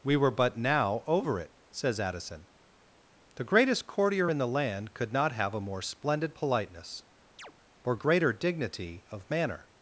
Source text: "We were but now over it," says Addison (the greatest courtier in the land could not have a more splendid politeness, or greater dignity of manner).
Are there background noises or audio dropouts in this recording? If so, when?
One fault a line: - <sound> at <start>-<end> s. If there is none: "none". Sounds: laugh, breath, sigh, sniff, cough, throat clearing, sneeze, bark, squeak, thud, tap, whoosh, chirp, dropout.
- chirp at 7.4-7.5 s